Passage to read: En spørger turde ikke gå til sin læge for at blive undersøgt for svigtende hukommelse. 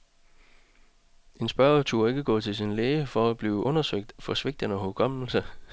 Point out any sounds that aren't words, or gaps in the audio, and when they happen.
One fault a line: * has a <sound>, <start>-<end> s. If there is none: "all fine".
all fine